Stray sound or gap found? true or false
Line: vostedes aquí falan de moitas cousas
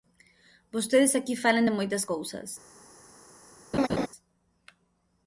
true